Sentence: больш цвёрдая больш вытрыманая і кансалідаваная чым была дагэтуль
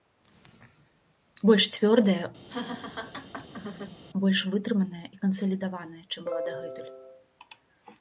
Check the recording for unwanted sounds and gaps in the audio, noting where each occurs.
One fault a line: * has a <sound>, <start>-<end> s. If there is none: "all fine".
* has a laugh, 2.5-4.0 s